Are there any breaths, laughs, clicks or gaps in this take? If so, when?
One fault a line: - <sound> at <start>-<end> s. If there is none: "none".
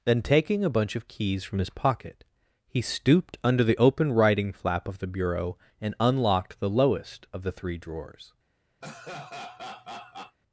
- laugh at 8.8-10.4 s